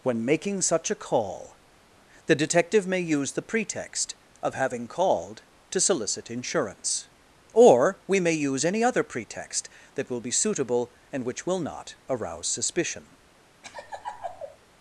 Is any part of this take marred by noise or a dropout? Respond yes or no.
yes